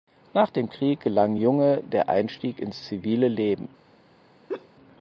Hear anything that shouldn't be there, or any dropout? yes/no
yes